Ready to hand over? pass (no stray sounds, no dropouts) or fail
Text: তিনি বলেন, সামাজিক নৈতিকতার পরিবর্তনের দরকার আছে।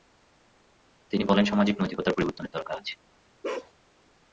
fail